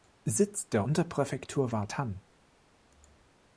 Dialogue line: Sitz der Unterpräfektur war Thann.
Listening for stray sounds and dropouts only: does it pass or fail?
pass